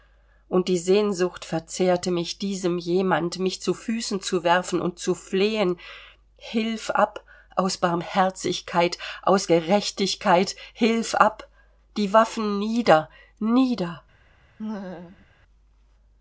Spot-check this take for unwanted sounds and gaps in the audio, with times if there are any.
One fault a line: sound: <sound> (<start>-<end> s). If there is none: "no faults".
sound: laugh (14.6-15.3 s)